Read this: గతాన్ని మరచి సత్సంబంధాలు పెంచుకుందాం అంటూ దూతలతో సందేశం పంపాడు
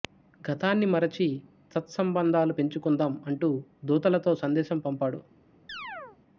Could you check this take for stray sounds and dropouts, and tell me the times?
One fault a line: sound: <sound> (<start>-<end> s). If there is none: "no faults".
sound: chirp (5.7-6.2 s)